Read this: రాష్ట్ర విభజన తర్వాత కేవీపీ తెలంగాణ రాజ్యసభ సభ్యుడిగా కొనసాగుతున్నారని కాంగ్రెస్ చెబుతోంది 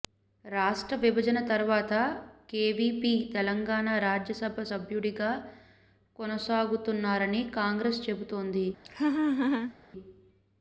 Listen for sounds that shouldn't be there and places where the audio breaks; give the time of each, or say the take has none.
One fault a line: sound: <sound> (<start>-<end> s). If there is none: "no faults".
sound: laugh (8.8-9.7 s)